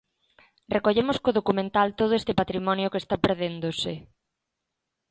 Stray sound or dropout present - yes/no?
no